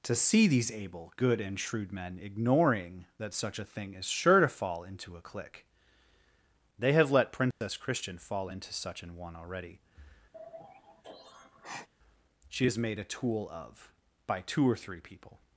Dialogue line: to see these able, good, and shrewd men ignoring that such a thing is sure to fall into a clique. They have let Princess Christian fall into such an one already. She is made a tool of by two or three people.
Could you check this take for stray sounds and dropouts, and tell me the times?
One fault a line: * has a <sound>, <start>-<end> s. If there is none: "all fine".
* has a dropout, 7.5-7.6 s
* has a sigh, 10.3-11.9 s